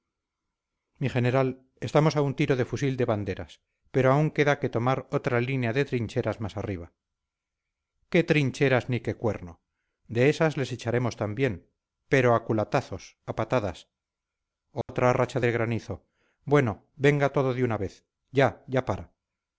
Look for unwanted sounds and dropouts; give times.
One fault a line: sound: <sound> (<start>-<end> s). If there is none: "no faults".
sound: dropout (14.8-14.9 s)